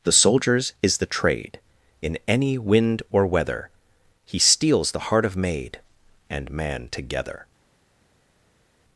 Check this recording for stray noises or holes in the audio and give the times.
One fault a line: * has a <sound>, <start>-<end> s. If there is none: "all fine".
all fine